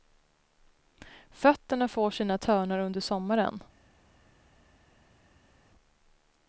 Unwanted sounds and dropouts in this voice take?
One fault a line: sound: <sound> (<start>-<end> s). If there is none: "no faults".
no faults